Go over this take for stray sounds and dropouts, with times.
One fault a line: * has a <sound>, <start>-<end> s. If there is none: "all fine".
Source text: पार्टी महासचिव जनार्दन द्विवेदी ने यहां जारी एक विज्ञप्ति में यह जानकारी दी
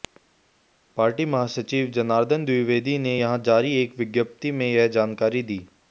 all fine